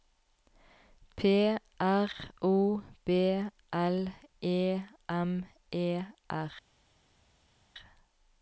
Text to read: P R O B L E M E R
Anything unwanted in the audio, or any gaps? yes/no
no